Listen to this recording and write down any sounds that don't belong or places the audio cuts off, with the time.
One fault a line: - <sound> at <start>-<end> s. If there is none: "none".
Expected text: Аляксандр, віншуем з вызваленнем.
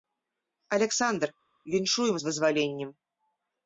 none